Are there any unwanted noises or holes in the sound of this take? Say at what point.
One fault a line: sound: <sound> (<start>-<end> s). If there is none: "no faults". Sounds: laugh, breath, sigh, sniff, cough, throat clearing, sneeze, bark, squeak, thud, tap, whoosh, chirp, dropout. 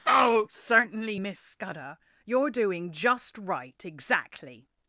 no faults